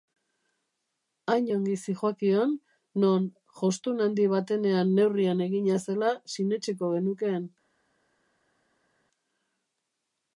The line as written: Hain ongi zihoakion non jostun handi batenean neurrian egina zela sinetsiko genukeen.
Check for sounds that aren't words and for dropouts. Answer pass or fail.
pass